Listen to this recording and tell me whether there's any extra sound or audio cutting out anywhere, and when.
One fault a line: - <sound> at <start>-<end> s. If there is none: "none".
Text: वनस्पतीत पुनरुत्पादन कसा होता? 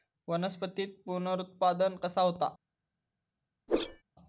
- whoosh at 3.7-4.0 s